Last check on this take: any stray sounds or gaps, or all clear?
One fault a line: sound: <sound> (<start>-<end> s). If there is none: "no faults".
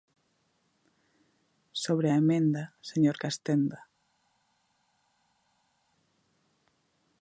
no faults